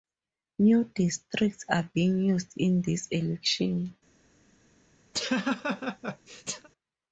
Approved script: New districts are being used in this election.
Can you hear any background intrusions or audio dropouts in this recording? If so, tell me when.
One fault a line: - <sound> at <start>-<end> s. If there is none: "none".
- laugh at 5.1-6.7 s